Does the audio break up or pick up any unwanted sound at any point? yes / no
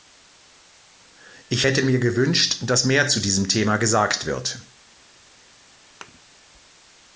yes